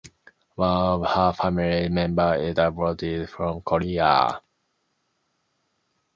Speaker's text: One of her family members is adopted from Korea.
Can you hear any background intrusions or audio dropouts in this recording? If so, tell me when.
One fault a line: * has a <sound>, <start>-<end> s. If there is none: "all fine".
all fine